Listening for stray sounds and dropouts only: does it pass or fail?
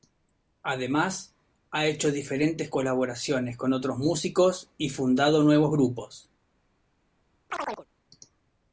fail